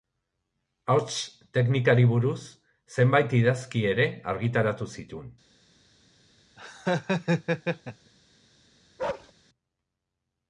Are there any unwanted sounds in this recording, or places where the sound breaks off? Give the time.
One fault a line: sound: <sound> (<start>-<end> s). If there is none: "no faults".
sound: laugh (6.6-8.1 s)
sound: bark (9.0-9.3 s)